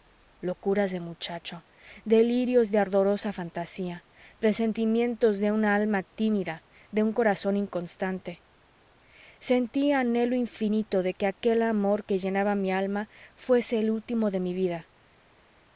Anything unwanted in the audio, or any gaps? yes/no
no